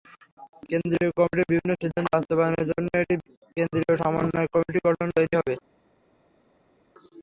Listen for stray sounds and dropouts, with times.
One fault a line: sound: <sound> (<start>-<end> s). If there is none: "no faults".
no faults